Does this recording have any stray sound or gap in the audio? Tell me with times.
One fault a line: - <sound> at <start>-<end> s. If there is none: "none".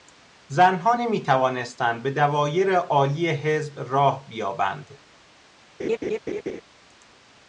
- laugh at 5.8-6.6 s